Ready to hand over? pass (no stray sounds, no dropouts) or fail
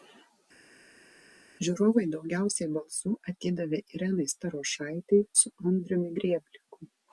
pass